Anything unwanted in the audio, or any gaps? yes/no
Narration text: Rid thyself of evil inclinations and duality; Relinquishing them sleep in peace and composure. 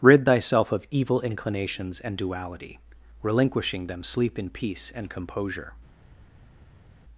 no